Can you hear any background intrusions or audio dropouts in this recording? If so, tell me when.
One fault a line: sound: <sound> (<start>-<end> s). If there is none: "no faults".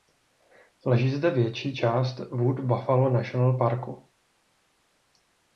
no faults